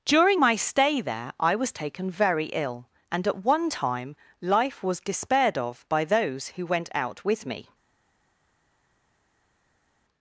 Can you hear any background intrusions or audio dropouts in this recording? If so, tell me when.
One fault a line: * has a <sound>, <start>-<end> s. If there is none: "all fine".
all fine